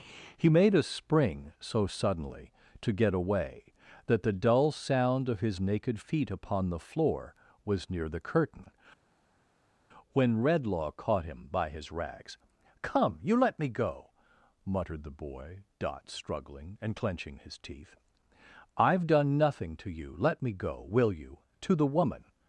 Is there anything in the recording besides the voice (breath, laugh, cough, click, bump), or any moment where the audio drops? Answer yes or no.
no